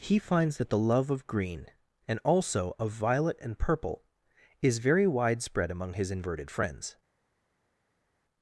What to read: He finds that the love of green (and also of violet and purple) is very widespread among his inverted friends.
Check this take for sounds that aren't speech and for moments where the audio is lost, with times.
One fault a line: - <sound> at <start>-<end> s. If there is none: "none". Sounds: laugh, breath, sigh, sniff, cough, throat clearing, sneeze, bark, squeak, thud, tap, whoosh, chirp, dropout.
none